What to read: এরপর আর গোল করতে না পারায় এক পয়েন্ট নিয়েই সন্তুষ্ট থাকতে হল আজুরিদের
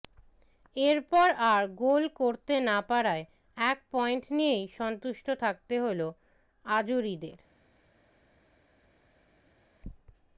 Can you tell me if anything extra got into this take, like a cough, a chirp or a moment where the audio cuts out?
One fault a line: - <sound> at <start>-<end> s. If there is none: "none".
none